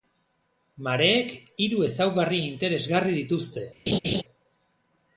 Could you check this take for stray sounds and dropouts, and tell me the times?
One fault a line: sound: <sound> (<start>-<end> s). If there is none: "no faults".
sound: laugh (3.9-4.2 s)